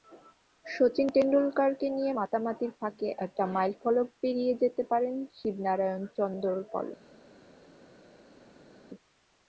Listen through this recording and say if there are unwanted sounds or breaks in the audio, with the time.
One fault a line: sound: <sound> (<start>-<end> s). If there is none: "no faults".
no faults